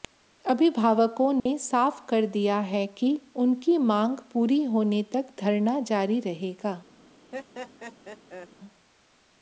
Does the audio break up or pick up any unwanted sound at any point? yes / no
yes